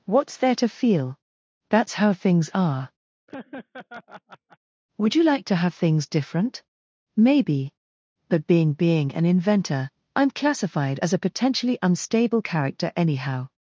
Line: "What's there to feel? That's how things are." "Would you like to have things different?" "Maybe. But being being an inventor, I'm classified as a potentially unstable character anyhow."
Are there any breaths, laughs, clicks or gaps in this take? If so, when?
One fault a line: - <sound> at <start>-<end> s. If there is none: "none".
- laugh at 3.3-4.6 s